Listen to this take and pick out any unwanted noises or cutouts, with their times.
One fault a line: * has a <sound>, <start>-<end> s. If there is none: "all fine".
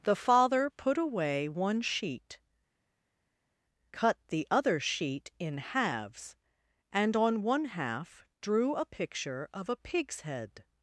all fine